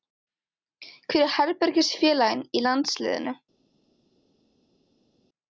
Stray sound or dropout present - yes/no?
no